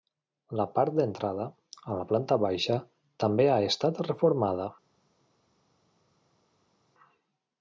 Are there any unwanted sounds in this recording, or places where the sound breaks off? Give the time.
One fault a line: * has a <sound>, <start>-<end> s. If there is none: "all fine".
all fine